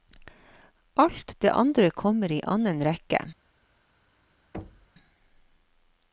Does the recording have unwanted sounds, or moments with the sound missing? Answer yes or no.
yes